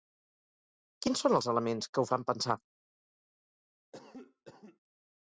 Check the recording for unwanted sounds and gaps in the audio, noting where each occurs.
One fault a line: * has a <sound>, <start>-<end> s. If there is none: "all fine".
* has a cough, 3.9-4.8 s